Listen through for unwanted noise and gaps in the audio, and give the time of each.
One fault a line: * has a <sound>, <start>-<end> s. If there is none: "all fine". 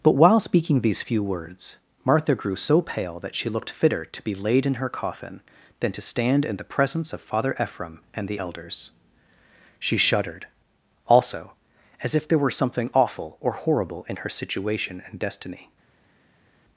all fine